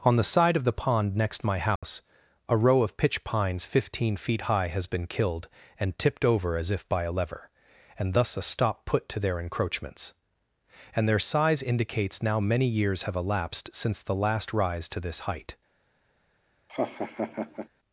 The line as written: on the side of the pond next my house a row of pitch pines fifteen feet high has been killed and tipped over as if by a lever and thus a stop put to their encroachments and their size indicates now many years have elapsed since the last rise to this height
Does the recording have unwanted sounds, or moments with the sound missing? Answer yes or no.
yes